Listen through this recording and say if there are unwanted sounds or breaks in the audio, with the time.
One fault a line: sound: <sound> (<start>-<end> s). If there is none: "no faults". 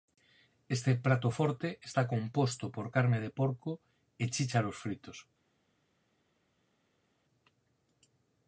no faults